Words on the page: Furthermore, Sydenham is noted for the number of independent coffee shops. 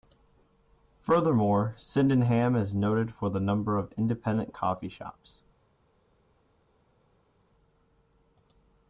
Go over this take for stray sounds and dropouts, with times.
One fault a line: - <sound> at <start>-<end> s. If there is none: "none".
none